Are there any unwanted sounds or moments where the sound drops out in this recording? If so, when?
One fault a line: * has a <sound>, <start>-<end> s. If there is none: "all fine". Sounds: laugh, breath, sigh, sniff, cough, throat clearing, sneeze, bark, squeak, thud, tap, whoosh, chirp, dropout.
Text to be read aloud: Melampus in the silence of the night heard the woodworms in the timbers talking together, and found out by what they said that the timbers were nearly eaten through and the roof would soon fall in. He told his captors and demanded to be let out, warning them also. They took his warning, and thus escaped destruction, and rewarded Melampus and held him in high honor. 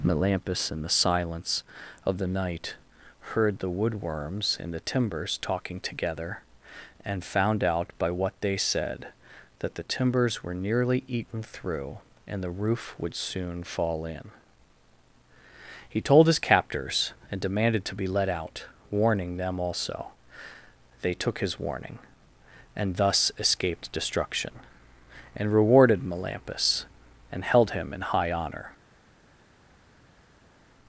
all fine